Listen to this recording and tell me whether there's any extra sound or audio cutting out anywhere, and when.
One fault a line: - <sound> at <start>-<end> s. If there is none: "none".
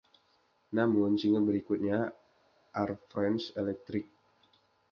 none